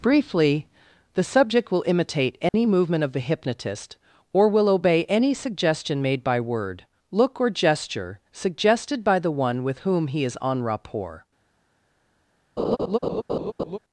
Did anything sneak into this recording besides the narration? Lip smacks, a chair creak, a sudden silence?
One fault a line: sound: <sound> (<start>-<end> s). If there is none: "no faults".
sound: dropout (2.5-2.5 s)
sound: laugh (12.6-13.8 s)